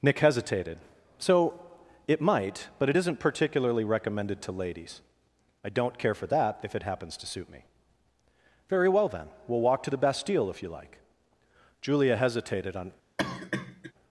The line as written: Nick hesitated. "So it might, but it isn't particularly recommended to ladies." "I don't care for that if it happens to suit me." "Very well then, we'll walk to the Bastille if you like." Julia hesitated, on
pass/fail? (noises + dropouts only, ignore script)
fail